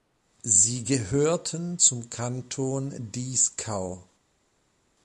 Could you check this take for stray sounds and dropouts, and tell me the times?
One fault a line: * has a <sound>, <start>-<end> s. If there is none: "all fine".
all fine